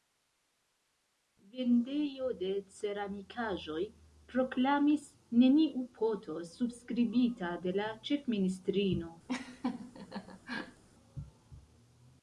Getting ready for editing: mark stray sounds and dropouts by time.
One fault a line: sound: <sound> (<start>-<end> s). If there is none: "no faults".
sound: laugh (9.3-10.8 s)